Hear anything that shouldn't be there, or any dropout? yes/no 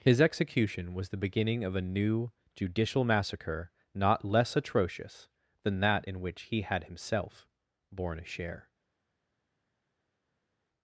no